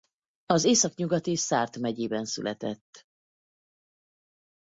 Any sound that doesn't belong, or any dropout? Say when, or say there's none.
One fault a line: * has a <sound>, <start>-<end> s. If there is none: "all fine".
all fine